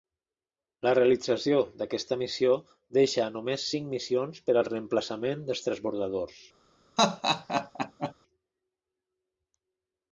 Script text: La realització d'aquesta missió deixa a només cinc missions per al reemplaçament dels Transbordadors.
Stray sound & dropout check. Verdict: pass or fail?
fail